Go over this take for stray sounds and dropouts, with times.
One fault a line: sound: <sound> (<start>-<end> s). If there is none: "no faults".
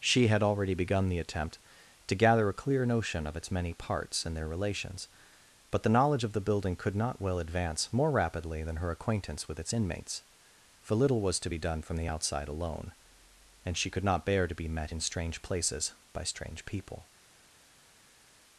no faults